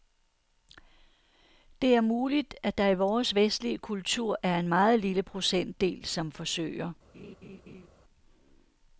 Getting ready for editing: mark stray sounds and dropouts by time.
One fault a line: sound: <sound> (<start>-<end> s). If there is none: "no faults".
sound: laugh (7.1-7.9 s)